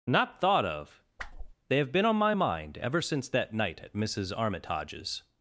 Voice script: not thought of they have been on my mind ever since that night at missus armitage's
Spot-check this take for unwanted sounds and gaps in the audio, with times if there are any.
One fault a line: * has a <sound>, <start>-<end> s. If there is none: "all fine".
* has a whoosh, 1.2-1.5 s